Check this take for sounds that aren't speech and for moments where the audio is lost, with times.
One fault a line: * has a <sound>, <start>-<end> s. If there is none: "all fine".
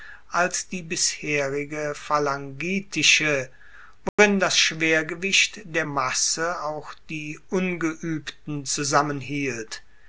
* has a dropout, 4.1-4.2 s